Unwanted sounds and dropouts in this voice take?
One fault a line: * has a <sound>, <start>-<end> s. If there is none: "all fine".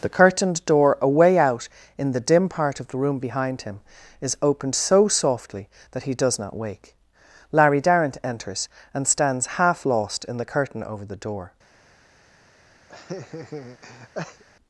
* has a laugh, 12.9-14.4 s